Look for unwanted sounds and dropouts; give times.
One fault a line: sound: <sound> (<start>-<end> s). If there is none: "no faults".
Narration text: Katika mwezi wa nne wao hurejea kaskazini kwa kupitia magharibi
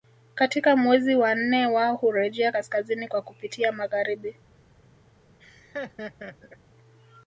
sound: laugh (5.4-6.6 s)